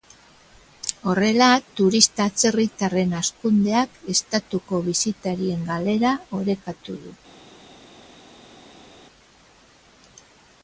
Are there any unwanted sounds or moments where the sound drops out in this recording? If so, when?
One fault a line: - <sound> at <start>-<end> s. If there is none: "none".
none